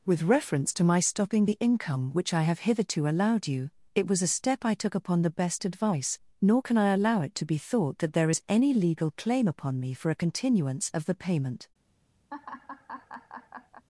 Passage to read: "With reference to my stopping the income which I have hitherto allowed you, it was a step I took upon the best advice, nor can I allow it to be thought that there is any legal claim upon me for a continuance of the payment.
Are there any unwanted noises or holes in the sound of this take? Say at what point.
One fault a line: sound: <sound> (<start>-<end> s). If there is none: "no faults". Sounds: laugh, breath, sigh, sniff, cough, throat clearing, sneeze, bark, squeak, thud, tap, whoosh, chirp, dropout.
sound: laugh (12.3-13.8 s)